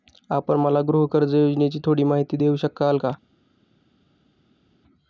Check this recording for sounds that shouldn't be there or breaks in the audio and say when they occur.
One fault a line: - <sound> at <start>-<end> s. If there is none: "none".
none